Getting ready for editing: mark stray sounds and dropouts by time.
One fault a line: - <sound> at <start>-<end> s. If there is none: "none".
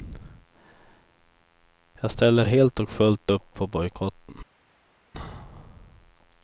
none